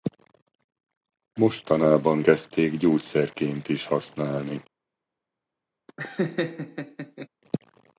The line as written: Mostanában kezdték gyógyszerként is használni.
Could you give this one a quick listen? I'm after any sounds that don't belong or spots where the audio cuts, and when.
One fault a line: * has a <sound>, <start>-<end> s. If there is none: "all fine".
* has a laugh, 5.9-7.3 s